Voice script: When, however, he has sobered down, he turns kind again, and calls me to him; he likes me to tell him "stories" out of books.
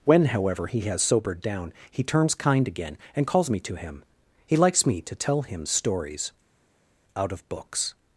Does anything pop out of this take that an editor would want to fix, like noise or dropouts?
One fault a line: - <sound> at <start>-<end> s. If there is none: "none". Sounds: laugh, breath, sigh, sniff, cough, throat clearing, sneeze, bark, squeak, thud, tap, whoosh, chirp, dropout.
none